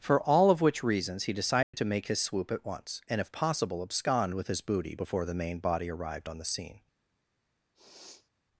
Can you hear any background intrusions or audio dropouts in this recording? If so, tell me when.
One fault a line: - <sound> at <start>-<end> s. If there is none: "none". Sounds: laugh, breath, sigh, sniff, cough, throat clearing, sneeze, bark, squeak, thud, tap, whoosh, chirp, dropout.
- dropout at 1.6-1.7 s
- sniff at 7.7-8.3 s